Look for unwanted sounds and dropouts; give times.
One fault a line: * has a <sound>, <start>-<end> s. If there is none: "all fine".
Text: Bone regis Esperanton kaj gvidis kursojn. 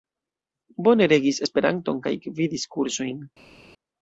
all fine